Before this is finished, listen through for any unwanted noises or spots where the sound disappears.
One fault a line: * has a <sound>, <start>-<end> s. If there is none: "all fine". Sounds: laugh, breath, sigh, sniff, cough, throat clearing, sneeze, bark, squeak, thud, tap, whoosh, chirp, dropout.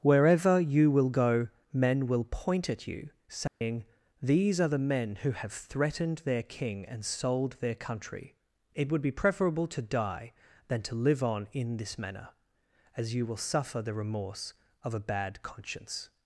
* has a dropout, 3.5-3.6 s